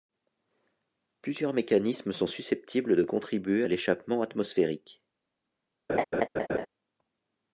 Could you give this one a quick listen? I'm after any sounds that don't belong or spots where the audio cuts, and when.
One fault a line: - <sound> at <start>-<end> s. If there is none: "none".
- laugh at 5.9-6.7 s